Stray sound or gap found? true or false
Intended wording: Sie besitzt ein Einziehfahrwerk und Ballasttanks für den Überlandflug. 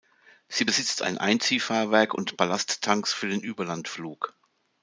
false